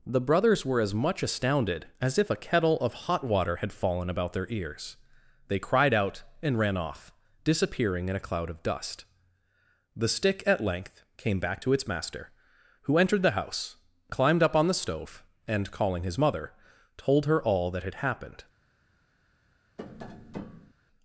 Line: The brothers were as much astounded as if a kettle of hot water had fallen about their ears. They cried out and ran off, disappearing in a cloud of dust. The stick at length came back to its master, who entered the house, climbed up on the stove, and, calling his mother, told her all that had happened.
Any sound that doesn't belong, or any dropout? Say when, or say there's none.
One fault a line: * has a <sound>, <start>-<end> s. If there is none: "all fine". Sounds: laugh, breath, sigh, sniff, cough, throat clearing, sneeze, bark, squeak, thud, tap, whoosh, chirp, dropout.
* has a tap, 19.8-20.7 s